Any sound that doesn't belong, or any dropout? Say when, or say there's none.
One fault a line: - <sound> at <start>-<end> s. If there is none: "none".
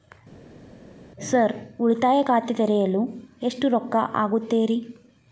none